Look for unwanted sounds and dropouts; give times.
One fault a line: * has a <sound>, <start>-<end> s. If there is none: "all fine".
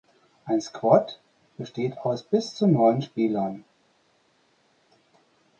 all fine